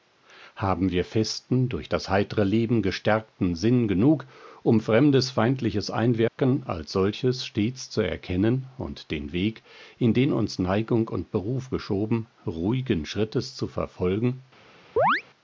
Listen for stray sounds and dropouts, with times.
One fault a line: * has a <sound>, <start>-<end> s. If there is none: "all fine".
* has a dropout, 6.3-6.4 s
* has a chirp, 15.0-15.2 s